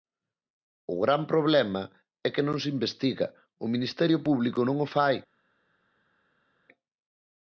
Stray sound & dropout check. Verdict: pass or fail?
pass